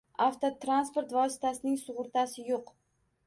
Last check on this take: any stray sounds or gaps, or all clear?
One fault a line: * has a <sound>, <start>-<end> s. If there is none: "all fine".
all fine